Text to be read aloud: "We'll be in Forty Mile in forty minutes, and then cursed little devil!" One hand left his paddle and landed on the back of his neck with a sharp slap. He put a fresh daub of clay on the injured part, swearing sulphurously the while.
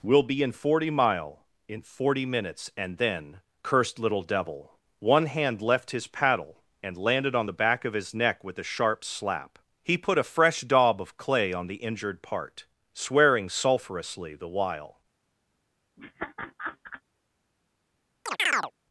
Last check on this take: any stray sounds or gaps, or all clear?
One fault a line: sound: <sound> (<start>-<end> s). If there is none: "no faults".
sound: laugh (16.0-17.0 s)
sound: chirp (18.3-18.7 s)